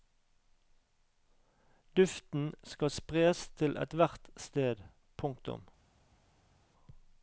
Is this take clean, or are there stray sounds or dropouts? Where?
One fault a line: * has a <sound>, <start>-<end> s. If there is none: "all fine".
all fine